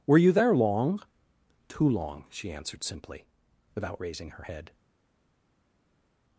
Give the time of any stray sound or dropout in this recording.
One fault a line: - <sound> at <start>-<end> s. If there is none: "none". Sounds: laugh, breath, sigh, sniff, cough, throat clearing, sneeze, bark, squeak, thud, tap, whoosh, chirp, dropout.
none